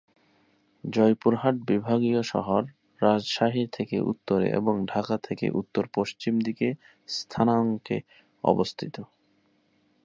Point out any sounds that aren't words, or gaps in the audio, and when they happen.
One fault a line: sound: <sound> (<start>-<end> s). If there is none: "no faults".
no faults